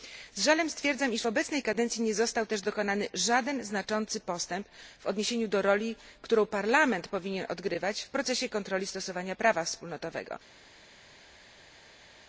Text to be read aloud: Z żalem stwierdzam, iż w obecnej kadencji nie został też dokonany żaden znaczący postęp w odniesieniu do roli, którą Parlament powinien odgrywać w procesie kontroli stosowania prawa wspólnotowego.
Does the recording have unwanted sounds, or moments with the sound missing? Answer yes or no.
no